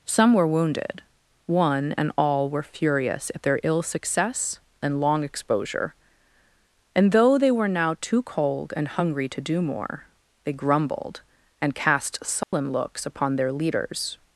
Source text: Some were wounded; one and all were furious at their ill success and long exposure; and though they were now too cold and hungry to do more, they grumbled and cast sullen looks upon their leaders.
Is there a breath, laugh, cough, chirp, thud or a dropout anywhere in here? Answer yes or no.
yes